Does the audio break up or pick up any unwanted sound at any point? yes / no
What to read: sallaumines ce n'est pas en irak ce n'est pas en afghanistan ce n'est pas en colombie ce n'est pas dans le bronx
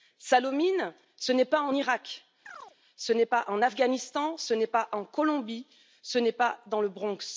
yes